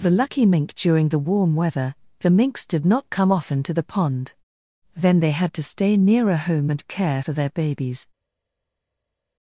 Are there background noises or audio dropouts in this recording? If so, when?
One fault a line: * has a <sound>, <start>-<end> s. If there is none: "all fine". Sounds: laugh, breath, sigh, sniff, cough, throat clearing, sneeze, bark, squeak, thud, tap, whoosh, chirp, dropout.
all fine